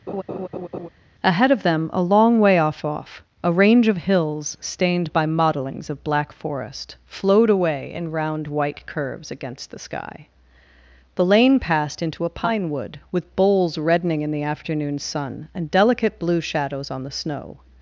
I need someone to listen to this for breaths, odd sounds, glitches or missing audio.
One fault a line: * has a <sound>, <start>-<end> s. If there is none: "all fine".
* has a laugh, 0.1-0.9 s